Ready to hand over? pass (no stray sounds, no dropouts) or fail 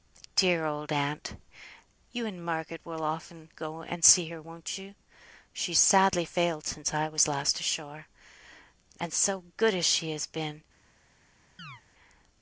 fail